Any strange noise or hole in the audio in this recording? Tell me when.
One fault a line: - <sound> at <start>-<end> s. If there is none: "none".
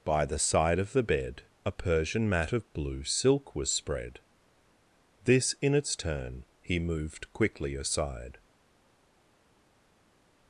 none